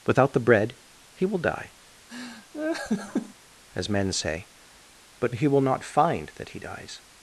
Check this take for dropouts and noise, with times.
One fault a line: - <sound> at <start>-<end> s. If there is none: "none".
- laugh at 2.1-3.3 s